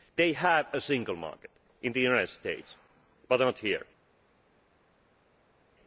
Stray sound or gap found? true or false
false